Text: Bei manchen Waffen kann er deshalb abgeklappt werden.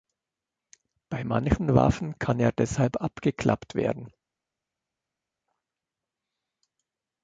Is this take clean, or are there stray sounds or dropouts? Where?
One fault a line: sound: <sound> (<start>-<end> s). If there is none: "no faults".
no faults